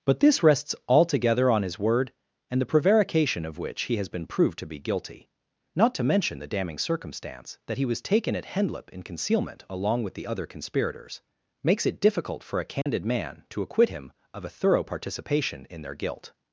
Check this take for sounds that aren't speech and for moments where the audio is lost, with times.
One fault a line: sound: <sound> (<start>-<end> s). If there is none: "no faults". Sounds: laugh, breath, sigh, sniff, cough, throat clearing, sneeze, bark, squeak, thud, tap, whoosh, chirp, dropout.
sound: dropout (12.8-12.9 s)